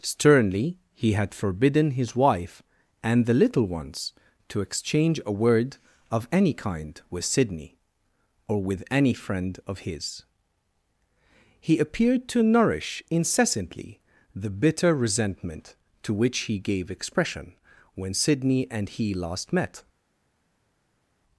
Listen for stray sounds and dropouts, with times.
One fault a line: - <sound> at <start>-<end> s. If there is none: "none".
none